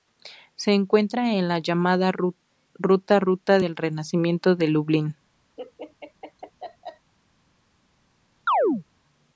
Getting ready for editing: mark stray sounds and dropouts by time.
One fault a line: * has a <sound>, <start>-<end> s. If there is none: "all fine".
* has a laugh, 5.6-7.1 s
* has a chirp, 8.5-8.8 s